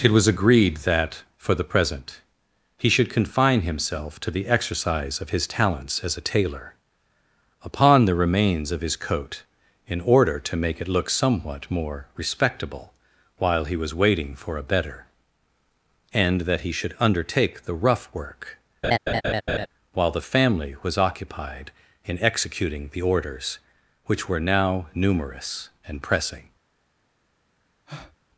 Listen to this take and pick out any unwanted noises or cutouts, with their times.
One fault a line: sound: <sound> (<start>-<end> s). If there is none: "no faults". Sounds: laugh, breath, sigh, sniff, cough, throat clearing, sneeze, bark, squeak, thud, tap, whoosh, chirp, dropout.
sound: laugh (18.8-19.7 s)
sound: breath (27.9-28.2 s)